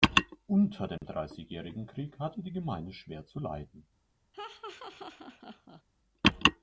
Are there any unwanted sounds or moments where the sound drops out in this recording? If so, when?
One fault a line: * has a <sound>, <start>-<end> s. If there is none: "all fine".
* has a dropout, 1.0-1.0 s
* has a laugh, 4.3-5.8 s